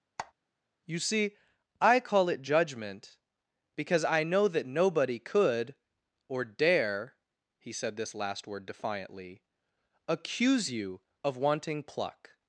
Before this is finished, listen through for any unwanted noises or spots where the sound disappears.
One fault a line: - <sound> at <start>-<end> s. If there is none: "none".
- squeak at 0.2-0.3 s